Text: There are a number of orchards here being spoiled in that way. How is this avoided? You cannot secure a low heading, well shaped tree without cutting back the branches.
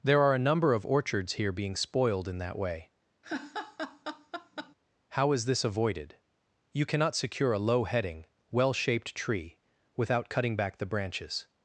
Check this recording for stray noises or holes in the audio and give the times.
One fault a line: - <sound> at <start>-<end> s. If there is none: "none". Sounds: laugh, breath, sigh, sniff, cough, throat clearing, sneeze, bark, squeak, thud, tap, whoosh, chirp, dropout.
- laugh at 3.2-4.8 s